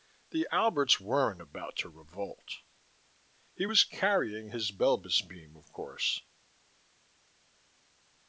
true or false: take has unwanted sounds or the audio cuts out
false